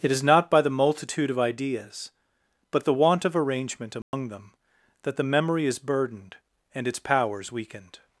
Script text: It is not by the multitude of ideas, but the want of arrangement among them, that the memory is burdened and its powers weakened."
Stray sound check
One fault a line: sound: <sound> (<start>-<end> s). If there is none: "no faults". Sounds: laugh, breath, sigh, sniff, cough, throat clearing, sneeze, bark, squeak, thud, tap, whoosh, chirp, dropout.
sound: dropout (4.0-4.1 s)